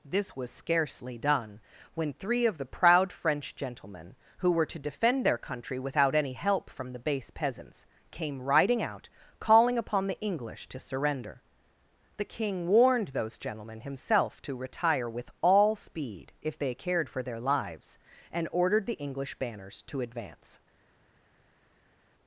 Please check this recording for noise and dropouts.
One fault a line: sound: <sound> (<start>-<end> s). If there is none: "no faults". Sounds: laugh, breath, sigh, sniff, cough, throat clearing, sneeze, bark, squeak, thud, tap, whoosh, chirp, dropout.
no faults